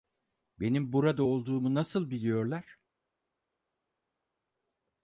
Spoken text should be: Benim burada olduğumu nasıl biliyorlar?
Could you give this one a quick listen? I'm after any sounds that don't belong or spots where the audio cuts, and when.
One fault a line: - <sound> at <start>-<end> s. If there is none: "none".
none